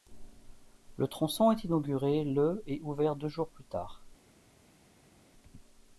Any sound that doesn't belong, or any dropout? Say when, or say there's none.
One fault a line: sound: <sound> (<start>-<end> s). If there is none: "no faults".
no faults